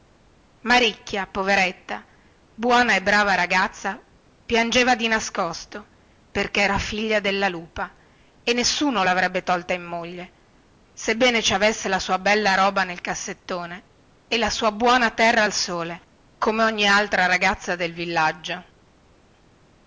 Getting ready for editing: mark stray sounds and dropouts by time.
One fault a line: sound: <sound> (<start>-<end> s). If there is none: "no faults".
no faults